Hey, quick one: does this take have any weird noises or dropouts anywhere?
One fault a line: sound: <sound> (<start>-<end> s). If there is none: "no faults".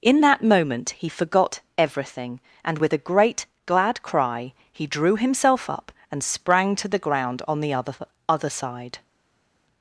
no faults